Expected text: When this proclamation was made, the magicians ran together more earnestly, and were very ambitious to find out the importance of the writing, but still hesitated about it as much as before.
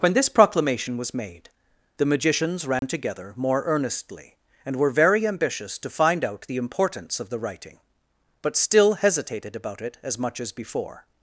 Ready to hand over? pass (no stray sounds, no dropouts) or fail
fail